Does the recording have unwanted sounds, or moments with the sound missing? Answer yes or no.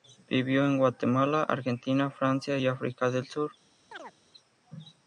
yes